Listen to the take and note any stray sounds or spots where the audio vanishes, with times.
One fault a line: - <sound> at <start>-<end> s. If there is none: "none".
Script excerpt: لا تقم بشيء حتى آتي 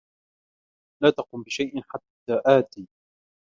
none